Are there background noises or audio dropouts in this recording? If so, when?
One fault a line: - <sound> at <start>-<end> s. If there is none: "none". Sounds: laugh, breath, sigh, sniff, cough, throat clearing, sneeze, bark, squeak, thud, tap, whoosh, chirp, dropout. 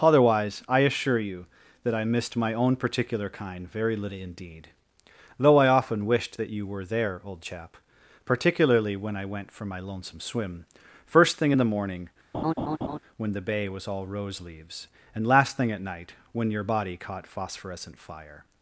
- laugh at 12.3-13.0 s